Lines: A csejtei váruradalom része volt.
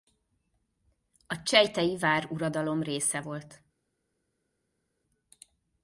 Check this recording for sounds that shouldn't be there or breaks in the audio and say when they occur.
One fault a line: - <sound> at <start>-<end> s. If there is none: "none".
none